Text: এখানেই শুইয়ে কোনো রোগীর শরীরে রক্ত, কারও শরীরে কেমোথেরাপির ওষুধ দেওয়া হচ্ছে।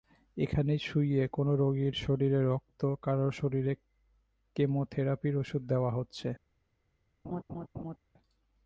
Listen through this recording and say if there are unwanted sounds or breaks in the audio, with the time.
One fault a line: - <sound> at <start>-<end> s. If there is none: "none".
- laugh at 7.2-8.0 s